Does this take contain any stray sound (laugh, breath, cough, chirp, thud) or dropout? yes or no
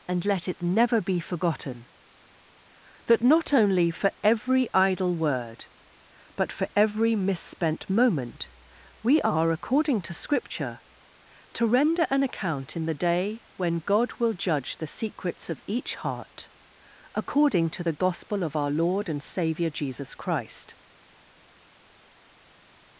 no